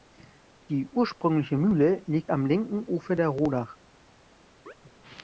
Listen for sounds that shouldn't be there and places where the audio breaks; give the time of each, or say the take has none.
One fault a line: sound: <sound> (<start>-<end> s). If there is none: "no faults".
sound: chirp (4.7-4.7 s)